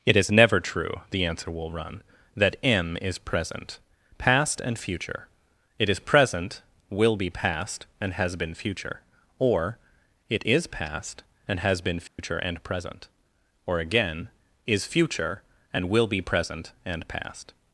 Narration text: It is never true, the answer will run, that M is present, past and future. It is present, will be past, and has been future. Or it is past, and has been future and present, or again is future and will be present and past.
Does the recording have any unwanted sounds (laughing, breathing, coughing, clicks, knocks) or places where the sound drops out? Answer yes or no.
yes